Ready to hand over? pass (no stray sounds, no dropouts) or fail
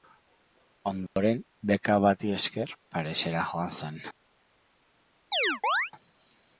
fail